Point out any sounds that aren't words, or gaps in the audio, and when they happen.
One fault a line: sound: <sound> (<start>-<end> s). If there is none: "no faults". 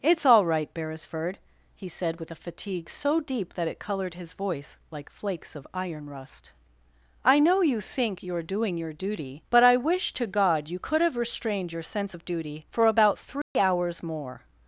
sound: dropout (13.4-13.6 s)